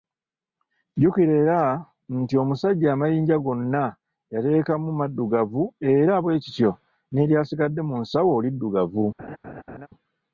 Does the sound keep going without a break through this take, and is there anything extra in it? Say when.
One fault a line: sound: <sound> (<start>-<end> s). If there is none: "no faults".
sound: laugh (9.2-9.9 s)